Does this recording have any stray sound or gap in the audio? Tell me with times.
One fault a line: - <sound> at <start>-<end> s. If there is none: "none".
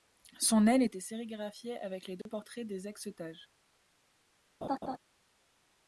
- dropout at 2.2-2.3 s
- laugh at 4.6-5.0 s